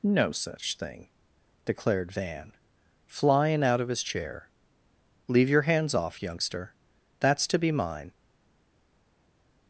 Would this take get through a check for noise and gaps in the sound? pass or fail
pass